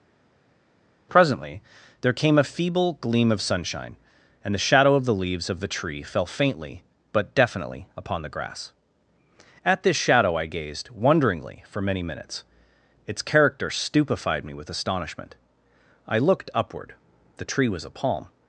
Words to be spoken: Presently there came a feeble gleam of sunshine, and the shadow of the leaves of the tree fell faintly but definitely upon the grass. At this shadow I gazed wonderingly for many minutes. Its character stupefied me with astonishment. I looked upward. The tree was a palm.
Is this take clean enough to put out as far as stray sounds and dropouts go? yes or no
yes